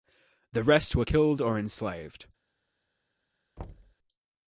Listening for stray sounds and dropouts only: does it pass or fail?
fail